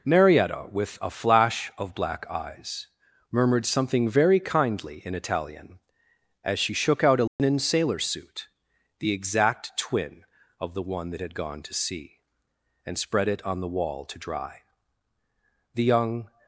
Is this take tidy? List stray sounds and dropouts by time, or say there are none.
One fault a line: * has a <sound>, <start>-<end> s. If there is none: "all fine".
* has a dropout, 7.3-7.4 s